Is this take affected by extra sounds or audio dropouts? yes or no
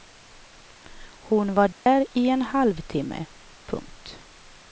yes